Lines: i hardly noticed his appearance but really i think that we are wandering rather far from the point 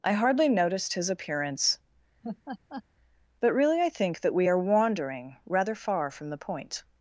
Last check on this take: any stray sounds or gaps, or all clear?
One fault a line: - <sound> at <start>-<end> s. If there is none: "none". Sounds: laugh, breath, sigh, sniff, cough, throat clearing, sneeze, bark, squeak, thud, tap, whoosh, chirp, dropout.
- laugh at 2.2-2.8 s